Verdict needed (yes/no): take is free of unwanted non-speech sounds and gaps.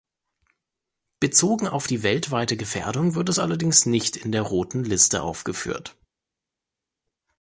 yes